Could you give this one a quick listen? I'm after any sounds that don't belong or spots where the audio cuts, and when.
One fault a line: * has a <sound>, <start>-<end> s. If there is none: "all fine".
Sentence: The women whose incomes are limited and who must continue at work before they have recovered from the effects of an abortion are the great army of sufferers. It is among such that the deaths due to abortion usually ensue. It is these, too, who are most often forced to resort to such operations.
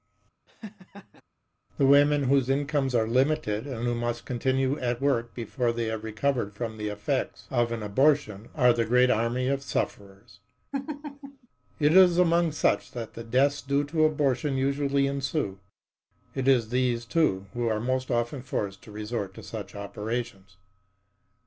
* has a laugh, 0.5-1.2 s
* has a laugh, 10.7-11.5 s